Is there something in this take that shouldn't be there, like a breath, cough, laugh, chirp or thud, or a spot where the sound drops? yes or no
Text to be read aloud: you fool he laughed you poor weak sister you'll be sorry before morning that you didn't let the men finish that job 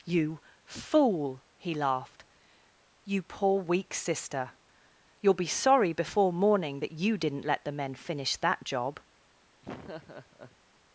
yes